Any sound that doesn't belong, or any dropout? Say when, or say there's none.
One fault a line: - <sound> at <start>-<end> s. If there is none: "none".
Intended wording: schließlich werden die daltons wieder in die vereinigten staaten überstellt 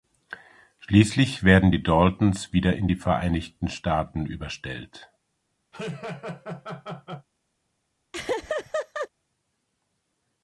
- laugh at 5.7-7.3 s
- laugh at 8.1-9.1 s